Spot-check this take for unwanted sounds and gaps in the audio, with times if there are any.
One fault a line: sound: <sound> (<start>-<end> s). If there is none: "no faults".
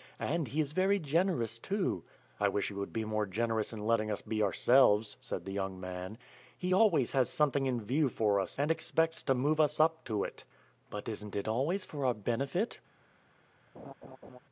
sound: laugh (13.7-14.4 s)